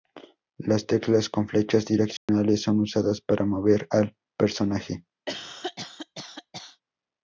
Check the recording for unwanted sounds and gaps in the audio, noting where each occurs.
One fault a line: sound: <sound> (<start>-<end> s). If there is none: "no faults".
sound: dropout (2.2-2.3 s)
sound: cough (5.3-6.8 s)